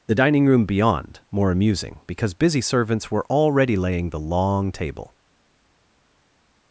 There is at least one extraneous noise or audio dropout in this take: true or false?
false